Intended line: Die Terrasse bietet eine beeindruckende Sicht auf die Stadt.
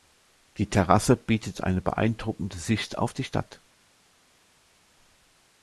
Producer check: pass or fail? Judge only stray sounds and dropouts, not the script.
pass